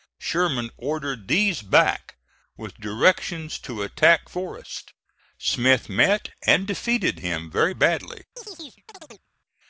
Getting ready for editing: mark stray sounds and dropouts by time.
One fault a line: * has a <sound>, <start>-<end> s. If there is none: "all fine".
* has a chirp, 8.4-9.3 s